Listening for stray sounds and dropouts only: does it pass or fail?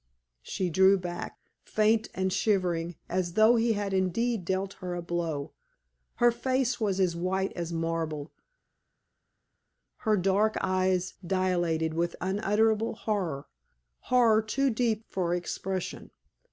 pass